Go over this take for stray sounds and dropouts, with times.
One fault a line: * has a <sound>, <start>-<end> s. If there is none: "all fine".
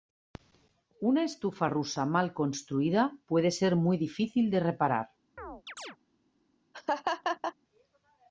* has a chirp, 5.4-6.0 s
* has a laugh, 6.7-7.5 s